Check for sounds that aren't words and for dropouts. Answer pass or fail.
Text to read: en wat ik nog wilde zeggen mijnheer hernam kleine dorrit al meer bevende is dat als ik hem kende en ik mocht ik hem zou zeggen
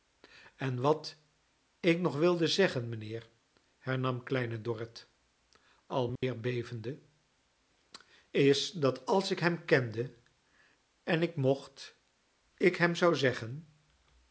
fail